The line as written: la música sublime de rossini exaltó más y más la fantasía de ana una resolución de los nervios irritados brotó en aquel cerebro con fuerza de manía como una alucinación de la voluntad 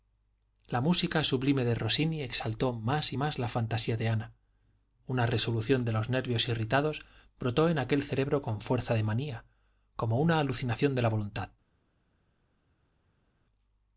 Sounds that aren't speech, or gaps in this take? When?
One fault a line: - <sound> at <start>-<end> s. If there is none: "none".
none